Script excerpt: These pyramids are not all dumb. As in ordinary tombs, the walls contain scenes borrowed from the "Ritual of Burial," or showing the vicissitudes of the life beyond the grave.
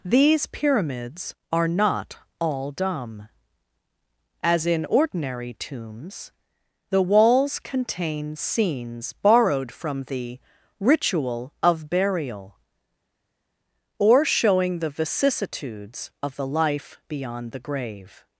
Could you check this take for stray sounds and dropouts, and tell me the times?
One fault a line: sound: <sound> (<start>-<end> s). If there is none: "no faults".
no faults